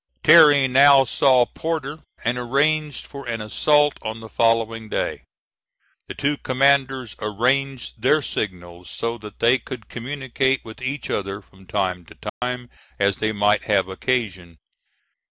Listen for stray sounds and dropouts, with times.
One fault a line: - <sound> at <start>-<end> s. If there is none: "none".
- dropout at 12.3-12.4 s